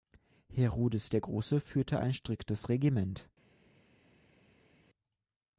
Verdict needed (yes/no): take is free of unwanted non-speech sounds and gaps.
yes